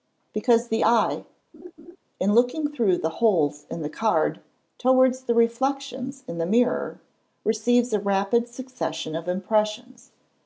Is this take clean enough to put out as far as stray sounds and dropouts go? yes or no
no